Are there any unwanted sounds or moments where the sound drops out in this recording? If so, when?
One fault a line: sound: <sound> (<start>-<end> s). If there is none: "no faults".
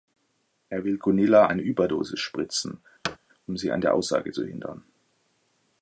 sound: thud (3.0-3.2 s)